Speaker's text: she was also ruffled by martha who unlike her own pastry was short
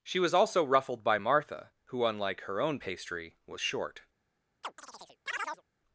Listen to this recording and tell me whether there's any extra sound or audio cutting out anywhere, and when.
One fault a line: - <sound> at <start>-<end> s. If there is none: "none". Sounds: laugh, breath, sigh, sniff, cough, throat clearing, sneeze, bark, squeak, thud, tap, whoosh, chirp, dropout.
- chirp at 4.6-5.6 s